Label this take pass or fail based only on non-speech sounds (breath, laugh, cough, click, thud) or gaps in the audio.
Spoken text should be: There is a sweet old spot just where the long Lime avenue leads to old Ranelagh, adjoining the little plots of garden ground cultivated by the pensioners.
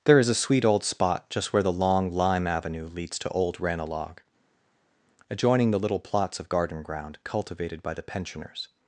pass